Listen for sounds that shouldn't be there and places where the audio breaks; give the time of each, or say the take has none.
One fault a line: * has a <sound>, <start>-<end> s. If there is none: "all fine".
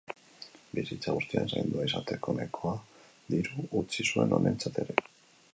all fine